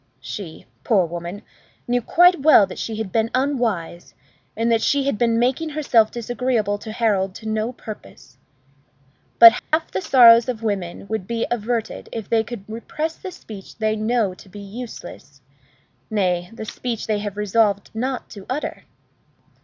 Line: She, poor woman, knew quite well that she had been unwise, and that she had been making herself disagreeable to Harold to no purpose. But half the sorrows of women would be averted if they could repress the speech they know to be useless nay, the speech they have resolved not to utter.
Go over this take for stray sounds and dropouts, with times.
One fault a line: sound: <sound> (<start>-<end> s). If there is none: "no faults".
sound: dropout (9.6-9.7 s)